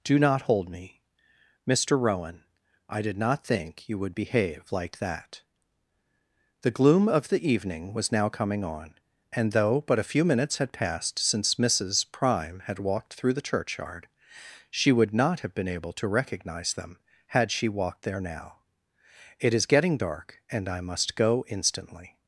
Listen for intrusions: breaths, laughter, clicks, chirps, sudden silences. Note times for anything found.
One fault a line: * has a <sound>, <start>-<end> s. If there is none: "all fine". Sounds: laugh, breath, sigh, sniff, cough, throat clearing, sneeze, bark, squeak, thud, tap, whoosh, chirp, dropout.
all fine